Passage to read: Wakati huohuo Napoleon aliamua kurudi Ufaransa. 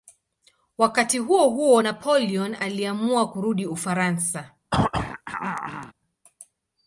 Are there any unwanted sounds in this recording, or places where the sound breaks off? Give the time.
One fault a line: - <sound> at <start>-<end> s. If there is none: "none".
- throat clearing at 4.7-5.9 s